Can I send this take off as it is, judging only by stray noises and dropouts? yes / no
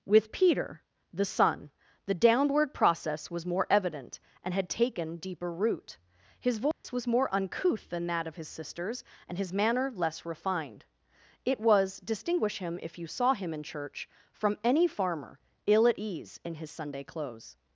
no